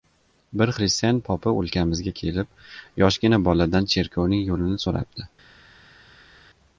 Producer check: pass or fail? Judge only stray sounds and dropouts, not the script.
pass